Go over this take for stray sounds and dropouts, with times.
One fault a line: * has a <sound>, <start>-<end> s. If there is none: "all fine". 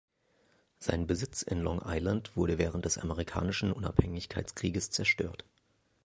all fine